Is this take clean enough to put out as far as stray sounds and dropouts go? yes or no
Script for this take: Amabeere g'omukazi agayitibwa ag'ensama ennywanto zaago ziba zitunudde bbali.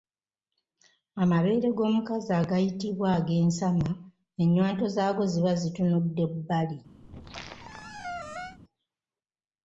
no